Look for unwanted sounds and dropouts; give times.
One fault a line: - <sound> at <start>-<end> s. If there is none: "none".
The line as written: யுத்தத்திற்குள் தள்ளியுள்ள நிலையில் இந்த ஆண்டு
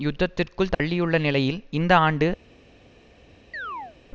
- dropout at 0.7-0.8 s
- chirp at 3.5-4.0 s